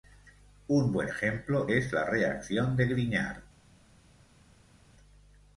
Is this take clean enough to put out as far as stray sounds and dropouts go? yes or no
yes